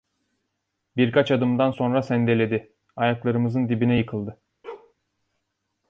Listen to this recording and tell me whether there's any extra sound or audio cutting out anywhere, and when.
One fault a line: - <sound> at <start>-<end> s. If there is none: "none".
- bark at 4.6-4.9 s